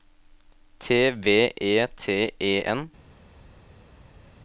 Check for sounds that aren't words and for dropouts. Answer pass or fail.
pass